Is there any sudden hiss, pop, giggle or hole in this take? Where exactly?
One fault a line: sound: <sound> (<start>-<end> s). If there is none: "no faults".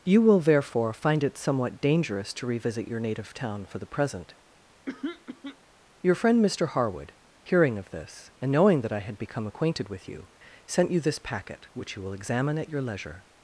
sound: throat clearing (4.9-5.6 s)